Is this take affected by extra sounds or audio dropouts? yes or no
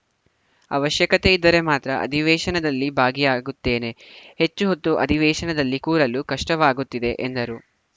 no